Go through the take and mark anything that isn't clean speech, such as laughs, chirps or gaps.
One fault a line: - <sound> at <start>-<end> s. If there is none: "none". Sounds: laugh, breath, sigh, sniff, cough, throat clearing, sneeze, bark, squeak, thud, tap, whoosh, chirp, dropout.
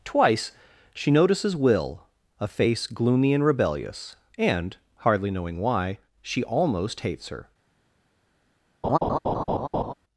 - laugh at 8.8-9.9 s